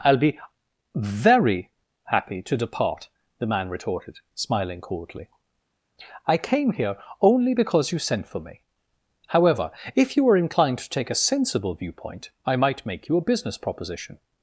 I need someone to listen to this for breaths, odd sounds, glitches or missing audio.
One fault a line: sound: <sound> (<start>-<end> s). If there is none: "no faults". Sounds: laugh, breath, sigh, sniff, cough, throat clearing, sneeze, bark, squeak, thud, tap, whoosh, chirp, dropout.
no faults